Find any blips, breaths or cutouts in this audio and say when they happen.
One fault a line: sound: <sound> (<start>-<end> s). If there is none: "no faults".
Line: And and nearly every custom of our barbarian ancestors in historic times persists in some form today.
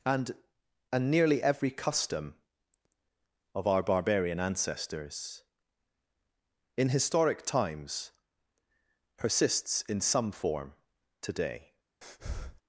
sound: breath (12.0-12.6 s)